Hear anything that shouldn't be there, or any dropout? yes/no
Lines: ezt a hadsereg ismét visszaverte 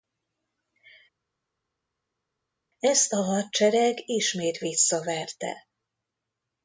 no